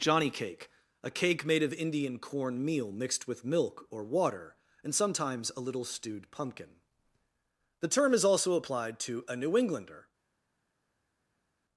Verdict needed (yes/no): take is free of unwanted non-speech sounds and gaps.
yes